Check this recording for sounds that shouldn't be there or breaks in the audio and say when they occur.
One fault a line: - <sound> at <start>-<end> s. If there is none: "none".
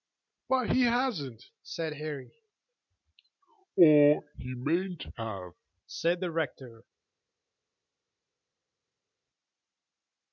none